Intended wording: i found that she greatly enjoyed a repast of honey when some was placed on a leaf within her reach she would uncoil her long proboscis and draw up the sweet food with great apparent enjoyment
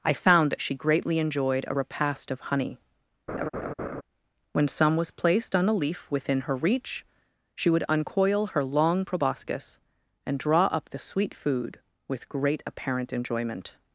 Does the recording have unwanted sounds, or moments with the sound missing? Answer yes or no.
yes